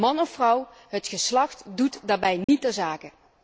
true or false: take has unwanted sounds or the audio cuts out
true